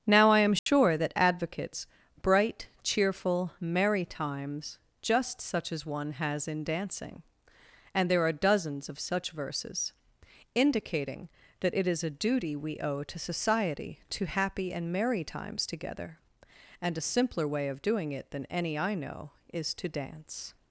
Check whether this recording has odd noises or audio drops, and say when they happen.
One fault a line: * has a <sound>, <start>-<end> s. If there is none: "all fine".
* has a dropout, 0.6-0.7 s